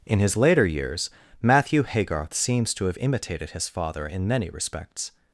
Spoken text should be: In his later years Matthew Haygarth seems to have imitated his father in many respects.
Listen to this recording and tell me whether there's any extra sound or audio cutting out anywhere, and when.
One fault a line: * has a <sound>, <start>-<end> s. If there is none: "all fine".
all fine